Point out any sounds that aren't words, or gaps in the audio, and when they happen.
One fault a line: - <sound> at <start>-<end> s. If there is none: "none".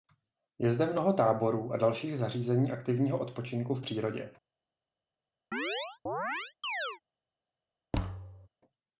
- chirp at 5.5-7.0 s
- thud at 7.9-8.5 s